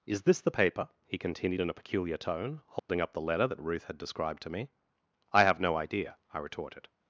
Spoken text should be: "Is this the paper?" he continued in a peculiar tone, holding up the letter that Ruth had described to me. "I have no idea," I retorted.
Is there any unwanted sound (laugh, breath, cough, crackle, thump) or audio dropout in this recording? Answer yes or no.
yes